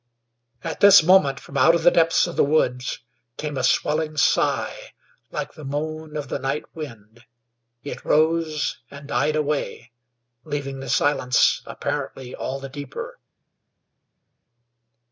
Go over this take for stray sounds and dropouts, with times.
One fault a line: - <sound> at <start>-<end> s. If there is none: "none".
none